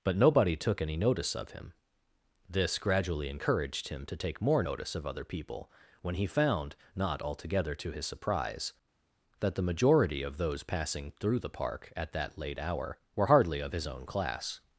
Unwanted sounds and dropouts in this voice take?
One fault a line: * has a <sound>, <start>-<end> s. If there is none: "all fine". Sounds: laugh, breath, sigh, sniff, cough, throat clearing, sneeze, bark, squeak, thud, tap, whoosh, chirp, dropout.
all fine